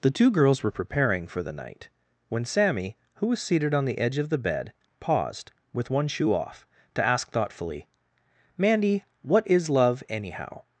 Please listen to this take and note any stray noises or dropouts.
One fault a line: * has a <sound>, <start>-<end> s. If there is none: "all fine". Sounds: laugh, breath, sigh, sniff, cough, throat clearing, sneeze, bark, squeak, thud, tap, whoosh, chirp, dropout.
all fine